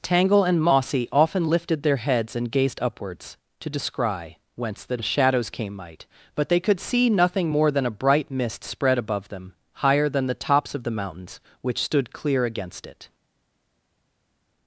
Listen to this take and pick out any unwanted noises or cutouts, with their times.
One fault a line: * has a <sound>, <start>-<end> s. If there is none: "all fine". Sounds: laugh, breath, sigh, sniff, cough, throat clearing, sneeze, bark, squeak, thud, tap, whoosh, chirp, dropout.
all fine